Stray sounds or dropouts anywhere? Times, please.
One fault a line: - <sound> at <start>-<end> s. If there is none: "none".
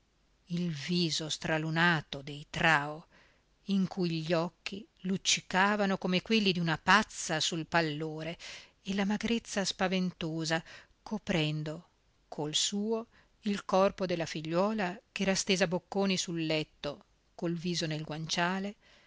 none